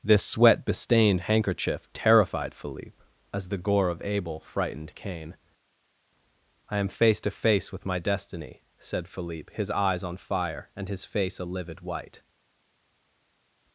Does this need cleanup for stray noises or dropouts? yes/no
no